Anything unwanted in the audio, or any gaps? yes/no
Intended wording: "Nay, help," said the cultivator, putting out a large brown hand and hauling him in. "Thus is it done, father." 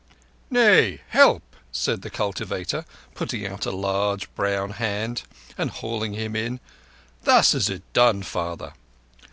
no